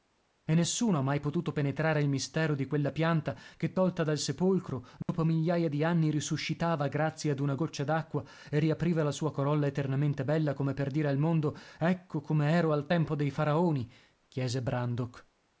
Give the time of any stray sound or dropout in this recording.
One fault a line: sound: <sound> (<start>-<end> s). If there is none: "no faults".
sound: dropout (5.0-5.1 s)